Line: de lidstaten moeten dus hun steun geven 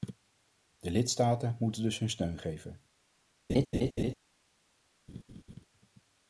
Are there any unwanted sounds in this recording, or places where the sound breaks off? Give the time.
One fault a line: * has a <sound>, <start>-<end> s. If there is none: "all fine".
* has a laugh, 3.5-4.1 s
* has a laugh, 5.1-5.6 s